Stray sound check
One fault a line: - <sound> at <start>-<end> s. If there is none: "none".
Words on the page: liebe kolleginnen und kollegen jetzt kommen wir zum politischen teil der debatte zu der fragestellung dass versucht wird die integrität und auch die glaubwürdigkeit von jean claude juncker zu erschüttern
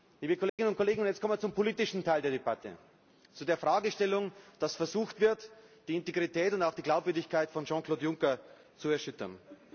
- dropout at 0.5-0.6 s